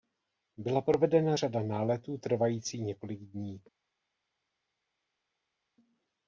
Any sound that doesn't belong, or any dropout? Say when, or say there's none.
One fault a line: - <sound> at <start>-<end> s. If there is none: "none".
none